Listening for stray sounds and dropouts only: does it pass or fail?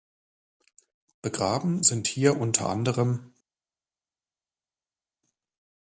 pass